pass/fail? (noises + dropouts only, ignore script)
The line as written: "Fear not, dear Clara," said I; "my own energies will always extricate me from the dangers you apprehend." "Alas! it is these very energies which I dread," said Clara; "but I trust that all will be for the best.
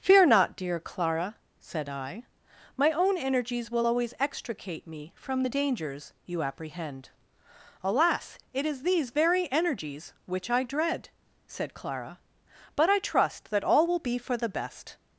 pass